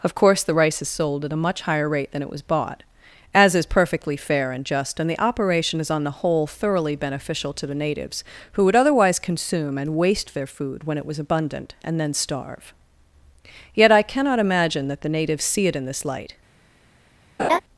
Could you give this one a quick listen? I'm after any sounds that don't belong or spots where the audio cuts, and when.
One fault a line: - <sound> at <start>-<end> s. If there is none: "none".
- laugh at 17.4-17.6 s